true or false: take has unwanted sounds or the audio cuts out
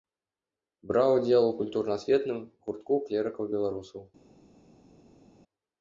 false